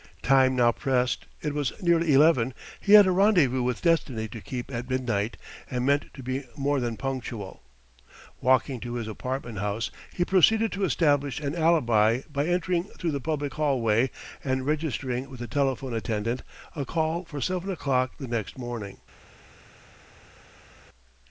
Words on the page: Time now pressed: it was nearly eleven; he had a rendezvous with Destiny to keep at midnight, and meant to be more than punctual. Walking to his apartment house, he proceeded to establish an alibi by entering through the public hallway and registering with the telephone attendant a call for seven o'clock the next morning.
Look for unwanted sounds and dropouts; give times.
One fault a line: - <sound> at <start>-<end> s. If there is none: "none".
none